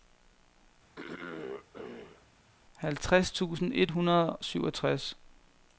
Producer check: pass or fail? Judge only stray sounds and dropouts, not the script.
fail